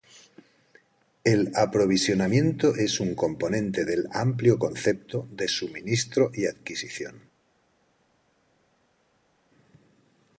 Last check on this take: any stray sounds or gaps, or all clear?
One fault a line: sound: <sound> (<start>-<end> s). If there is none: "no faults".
no faults